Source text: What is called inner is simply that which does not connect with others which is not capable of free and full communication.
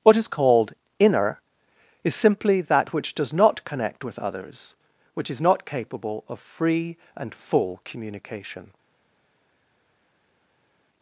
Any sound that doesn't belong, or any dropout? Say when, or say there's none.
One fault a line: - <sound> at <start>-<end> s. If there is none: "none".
none